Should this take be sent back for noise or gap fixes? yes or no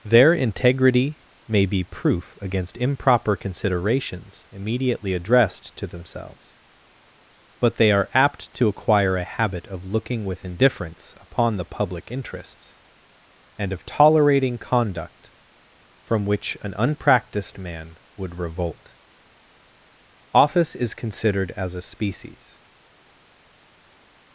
no